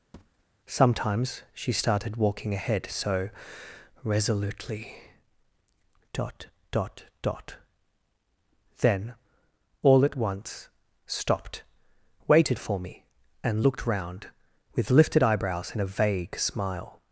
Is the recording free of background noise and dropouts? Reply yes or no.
no